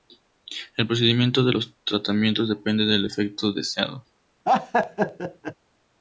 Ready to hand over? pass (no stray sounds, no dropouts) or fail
fail